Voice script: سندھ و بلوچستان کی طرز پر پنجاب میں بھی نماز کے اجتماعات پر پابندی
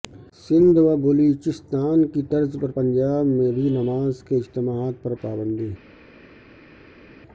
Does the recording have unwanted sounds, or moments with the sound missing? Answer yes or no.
no